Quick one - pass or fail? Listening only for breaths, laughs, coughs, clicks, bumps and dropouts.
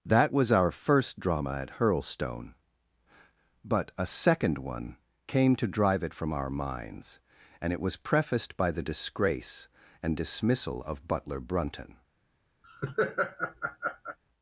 fail